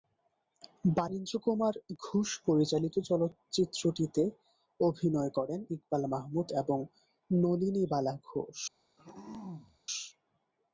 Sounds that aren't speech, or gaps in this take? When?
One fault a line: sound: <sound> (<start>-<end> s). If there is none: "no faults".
sound: throat clearing (9.0-9.8 s)